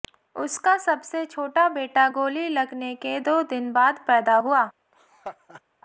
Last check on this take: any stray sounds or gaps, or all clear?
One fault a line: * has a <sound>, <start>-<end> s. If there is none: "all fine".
* has a laugh, 4.9-5.6 s